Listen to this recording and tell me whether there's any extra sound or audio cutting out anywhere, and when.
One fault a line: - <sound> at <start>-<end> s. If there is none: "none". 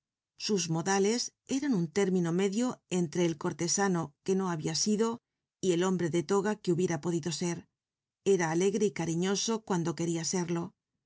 none